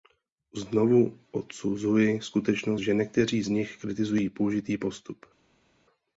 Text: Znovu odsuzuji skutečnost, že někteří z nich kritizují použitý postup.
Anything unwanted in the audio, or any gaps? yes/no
no